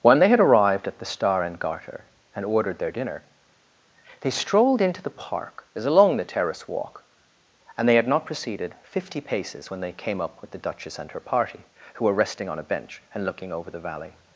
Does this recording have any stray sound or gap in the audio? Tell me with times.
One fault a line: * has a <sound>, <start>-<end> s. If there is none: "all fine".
all fine